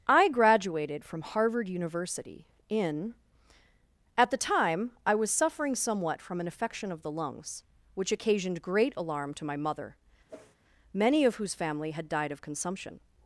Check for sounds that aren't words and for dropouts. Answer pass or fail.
fail